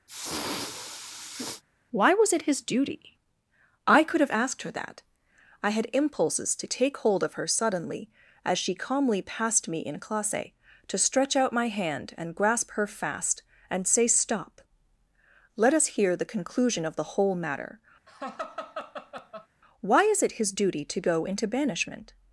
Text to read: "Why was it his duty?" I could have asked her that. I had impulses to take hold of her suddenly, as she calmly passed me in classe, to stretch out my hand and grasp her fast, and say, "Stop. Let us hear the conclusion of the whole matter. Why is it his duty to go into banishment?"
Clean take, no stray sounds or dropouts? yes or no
no